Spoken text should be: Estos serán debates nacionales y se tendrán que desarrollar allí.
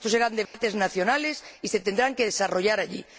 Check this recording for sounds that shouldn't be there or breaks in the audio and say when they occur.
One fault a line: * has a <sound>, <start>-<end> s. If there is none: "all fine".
* has a dropout, 0.5-0.5 s